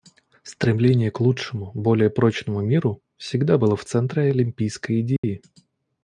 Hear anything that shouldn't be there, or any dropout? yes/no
yes